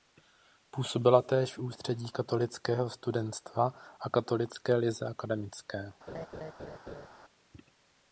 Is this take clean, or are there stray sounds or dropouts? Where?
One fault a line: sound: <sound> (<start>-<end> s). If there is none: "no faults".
sound: laugh (6.1-7.1 s)